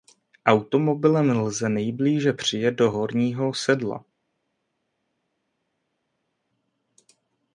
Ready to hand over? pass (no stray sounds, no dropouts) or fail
pass